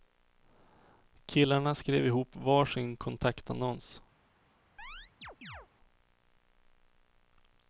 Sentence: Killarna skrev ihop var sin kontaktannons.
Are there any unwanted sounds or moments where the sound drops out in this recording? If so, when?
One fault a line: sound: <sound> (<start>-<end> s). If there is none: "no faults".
sound: chirp (4.8-5.7 s)